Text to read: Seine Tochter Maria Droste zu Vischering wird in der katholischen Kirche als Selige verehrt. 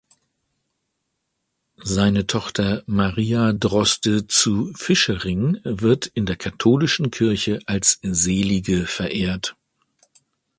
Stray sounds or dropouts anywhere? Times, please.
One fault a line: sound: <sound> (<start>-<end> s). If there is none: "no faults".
no faults